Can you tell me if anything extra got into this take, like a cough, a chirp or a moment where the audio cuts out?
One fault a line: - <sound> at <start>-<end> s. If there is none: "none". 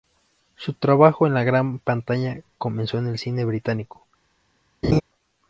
- laugh at 4.8-5.0 s